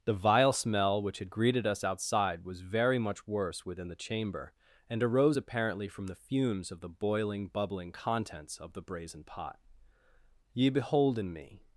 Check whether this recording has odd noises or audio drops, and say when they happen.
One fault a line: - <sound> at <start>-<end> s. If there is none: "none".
none